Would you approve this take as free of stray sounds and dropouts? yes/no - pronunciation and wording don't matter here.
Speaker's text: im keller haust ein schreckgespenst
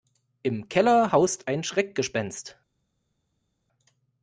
yes